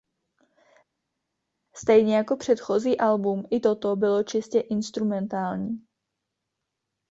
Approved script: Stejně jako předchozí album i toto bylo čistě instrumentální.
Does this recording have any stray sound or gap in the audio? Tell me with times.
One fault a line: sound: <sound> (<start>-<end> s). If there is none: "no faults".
no faults